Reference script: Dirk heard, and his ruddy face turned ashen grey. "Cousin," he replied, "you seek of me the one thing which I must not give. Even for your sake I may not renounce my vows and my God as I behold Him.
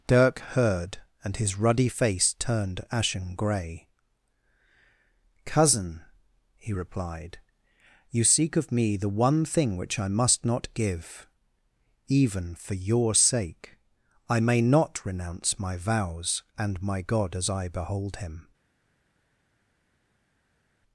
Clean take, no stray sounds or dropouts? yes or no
yes